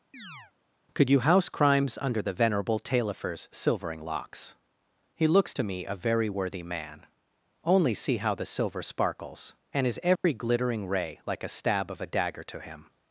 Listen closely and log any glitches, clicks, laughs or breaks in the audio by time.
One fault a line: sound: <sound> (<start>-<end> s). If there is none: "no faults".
sound: chirp (0.1-0.5 s)
sound: dropout (10.2-10.2 s)